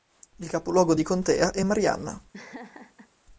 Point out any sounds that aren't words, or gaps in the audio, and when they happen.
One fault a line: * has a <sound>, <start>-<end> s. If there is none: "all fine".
* has a laugh, 2.3-3.1 s